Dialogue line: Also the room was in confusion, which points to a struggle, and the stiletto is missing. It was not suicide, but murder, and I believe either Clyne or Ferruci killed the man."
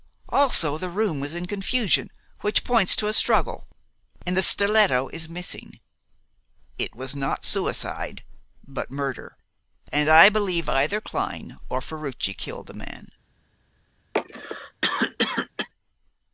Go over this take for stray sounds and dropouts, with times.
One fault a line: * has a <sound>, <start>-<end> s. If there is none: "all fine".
* has a cough, 14.1-15.7 s